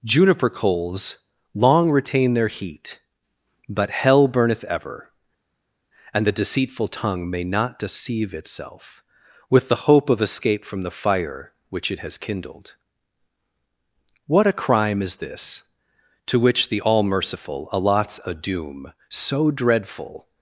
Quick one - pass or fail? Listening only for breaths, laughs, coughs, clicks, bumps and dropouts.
pass